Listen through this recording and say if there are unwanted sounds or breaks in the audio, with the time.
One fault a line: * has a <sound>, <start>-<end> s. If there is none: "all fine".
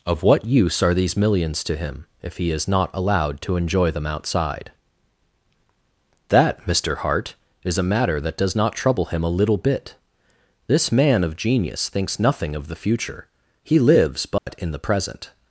* has a dropout, 14.4-14.5 s